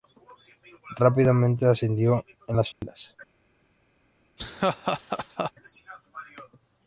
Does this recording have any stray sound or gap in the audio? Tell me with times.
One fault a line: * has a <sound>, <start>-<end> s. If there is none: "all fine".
* has a dropout, 2.7-2.8 s
* has a laugh, 4.4-5.5 s